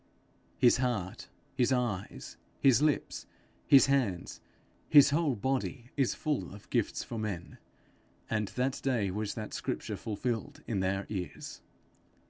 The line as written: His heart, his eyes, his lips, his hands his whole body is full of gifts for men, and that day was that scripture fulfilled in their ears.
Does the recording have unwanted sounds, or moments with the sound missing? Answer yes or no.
no